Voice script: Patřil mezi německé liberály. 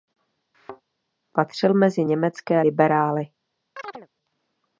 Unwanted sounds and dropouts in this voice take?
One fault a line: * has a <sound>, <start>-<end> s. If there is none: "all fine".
* has a thud, 0.5-0.8 s
* has a chirp, 3.8-4.1 s